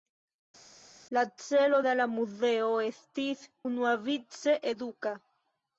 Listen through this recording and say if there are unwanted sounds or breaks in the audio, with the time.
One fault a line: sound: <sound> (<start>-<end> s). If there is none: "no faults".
no faults